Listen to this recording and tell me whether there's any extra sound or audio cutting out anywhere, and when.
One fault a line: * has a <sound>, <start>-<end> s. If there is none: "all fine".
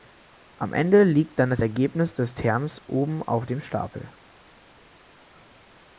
all fine